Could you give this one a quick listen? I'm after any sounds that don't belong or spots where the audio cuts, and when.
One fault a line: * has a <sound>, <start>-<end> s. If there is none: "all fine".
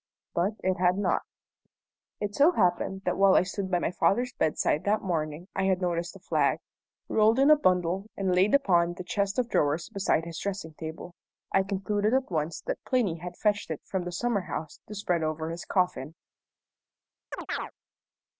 * has a chirp, 17.3-17.7 s